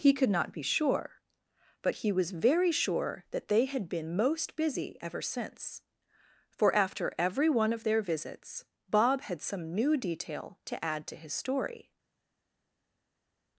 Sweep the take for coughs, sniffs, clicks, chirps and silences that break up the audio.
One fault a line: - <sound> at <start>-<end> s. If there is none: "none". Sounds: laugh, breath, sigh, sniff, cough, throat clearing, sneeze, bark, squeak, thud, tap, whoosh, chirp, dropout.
none